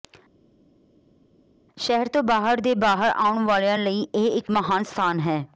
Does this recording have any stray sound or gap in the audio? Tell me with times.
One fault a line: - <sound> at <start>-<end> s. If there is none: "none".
none